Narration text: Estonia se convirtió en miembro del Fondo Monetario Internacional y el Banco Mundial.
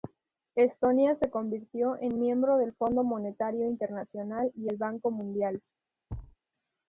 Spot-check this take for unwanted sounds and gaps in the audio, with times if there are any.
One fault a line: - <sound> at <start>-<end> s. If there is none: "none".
- thud at 6.1-6.4 s